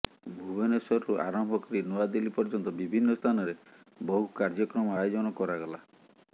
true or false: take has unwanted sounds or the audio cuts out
false